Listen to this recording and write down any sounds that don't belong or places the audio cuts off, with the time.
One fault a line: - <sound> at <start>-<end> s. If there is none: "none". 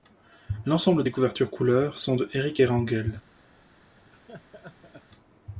- laugh at 4.1-5.0 s